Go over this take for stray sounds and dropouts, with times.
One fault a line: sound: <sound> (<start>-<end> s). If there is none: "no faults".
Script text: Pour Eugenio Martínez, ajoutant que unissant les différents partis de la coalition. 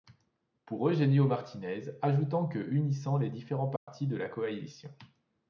sound: dropout (3.8-3.9 s)